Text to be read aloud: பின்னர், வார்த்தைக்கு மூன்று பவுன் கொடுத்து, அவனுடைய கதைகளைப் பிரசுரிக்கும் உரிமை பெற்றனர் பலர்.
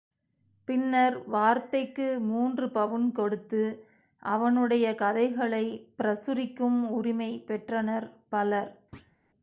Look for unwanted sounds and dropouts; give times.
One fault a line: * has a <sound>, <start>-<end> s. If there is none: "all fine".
* has a thud, 8.9-9.2 s